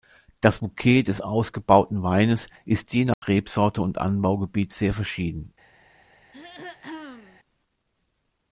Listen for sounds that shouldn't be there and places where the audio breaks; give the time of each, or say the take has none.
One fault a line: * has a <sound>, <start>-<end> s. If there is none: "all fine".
* has a dropout, 3.1-3.2 s
* has a throat clearing, 6.3-7.4 s